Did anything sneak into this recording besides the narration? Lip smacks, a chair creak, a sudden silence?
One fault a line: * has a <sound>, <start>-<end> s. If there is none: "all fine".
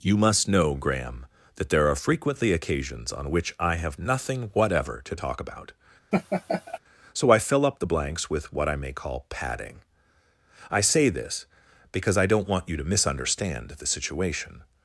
* has a laugh, 6.1-6.8 s